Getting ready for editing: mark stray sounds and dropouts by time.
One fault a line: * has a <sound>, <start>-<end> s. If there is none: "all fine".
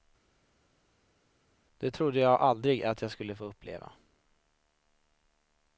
all fine